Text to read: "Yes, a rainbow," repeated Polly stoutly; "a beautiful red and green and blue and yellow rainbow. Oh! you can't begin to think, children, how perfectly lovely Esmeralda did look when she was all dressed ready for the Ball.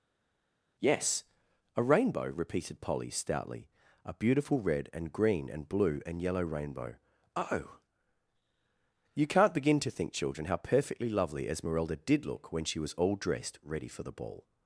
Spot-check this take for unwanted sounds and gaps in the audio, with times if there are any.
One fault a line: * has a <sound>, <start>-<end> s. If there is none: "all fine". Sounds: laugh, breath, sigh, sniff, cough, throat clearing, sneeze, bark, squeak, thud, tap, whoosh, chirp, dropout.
all fine